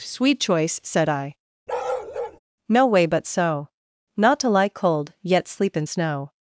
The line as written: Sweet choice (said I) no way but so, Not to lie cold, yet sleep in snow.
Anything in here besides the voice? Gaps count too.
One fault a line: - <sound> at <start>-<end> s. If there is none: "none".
- bark at 1.7-2.4 s